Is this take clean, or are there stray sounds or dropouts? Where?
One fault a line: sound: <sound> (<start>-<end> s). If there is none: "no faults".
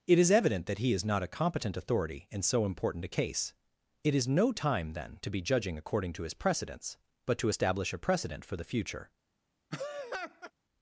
sound: laugh (9.7-10.5 s)